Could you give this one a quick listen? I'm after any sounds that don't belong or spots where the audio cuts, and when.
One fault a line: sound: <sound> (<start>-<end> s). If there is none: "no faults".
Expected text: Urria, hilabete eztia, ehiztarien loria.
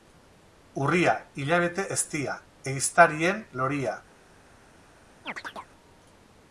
sound: chirp (5.2-5.7 s)